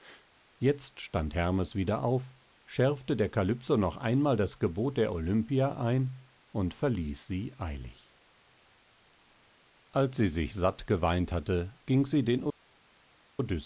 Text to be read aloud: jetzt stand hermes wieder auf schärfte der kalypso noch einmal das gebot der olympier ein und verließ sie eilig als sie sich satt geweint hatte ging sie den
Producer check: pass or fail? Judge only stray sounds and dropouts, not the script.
pass